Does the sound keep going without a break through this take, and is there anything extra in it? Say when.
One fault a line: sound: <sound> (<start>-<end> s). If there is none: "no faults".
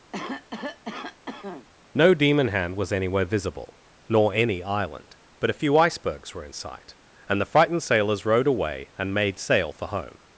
sound: cough (0.1-1.7 s)